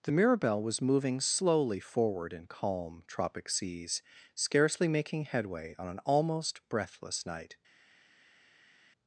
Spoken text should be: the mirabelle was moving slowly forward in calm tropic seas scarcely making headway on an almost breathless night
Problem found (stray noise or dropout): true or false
false